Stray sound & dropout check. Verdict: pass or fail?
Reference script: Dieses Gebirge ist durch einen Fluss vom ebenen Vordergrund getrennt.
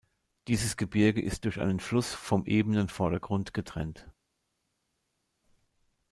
pass